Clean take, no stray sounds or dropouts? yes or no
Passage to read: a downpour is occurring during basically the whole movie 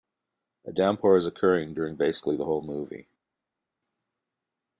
yes